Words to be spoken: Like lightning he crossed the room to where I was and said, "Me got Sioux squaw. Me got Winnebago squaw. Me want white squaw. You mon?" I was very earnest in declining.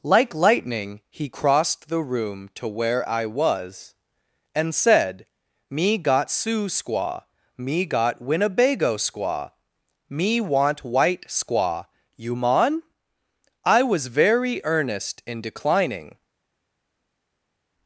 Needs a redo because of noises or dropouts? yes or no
no